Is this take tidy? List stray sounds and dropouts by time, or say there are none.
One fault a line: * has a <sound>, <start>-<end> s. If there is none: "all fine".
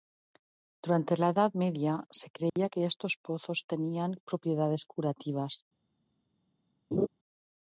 * has a dropout, 2.5-2.6 s
* has a laugh, 6.9-7.1 s